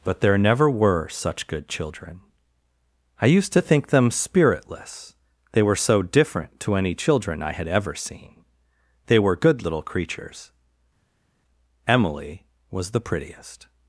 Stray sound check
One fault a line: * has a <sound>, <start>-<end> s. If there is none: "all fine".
all fine